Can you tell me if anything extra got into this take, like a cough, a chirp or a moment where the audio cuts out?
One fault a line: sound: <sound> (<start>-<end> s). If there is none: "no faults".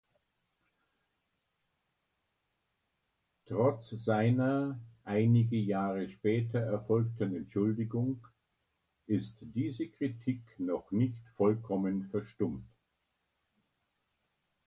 no faults